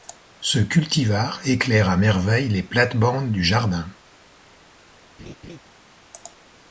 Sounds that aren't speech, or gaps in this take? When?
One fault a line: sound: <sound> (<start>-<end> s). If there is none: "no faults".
sound: laugh (5.2-5.6 s)